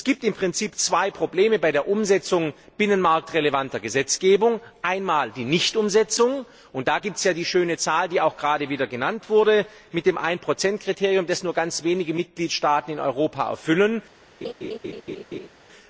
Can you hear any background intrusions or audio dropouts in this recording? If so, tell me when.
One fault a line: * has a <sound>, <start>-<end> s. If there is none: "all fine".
* has a laugh, 14.4-15.5 s